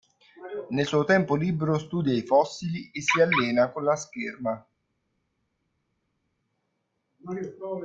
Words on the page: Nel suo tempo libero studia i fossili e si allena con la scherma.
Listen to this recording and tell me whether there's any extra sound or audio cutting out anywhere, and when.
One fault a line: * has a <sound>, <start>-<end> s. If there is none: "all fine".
all fine